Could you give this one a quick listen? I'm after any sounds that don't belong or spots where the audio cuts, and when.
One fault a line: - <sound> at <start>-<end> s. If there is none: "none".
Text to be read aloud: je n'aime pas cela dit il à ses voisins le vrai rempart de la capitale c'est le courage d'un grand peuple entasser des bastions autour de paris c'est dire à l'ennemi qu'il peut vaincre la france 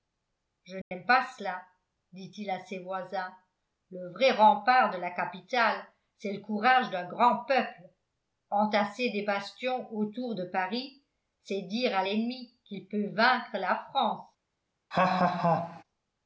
- dropout at 0.8-0.9 s
- laugh at 14.9-15.8 s